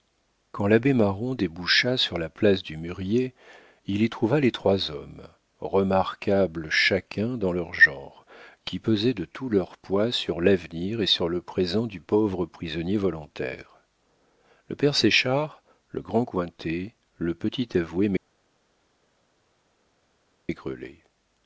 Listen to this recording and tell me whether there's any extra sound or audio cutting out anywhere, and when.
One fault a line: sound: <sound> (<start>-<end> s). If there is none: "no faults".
no faults